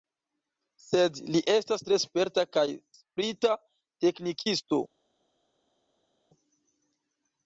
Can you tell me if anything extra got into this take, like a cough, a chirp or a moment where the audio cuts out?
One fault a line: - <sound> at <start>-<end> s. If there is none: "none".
none